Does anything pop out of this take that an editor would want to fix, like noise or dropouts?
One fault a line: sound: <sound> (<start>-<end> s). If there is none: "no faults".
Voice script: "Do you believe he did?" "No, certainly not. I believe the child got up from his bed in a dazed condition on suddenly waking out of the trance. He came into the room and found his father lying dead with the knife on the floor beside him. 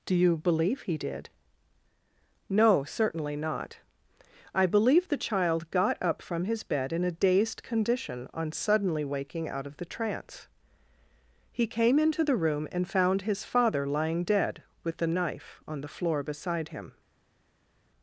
no faults